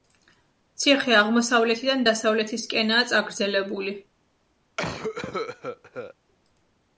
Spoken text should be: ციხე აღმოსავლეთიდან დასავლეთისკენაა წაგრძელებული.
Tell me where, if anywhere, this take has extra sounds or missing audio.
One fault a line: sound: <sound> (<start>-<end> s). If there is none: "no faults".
sound: cough (4.8-6.1 s)